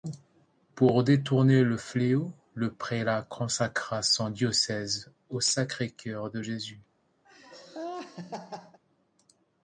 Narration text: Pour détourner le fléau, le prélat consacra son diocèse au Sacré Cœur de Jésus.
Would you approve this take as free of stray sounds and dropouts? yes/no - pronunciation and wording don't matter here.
no